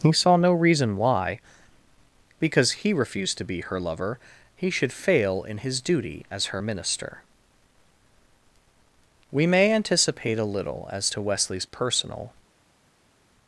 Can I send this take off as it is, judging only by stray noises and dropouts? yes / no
yes